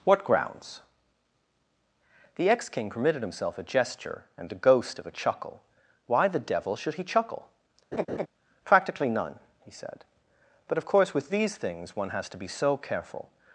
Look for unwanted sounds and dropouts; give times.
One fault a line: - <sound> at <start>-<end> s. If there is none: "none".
- laugh at 7.9-8.3 s